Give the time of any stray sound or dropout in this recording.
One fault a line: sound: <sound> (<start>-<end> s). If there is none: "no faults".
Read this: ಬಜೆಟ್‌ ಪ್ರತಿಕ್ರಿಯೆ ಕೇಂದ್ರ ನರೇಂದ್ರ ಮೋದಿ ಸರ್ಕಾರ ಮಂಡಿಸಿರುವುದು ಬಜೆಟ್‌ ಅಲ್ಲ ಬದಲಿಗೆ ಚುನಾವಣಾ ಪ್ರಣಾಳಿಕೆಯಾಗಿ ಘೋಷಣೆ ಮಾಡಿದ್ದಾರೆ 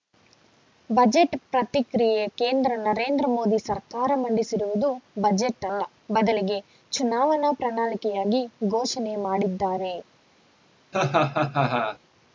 sound: laugh (10.9-12.0 s)